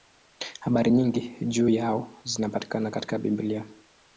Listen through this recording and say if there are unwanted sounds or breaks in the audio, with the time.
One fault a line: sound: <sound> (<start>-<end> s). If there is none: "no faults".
no faults